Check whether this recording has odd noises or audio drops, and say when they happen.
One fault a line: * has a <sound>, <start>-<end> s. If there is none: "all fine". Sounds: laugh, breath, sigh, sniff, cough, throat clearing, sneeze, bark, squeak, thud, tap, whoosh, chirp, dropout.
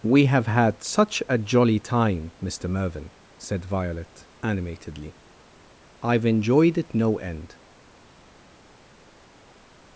all fine